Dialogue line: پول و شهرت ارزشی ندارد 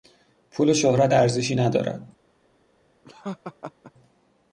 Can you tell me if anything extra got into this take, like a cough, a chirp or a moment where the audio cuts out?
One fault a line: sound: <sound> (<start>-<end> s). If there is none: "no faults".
sound: laugh (3.0-3.9 s)